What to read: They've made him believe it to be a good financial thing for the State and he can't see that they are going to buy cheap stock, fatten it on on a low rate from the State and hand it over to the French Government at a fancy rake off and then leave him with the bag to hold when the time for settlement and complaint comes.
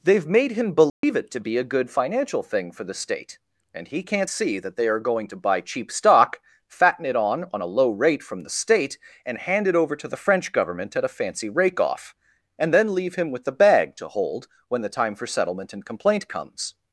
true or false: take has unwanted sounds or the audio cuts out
true